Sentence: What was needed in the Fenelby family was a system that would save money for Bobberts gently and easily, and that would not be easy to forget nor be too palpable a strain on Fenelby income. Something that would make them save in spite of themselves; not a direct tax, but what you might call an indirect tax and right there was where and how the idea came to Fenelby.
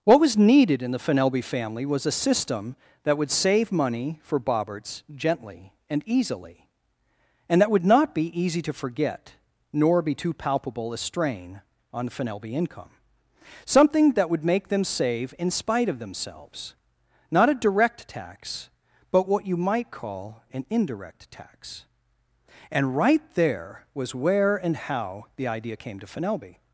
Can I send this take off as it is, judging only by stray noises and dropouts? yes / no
yes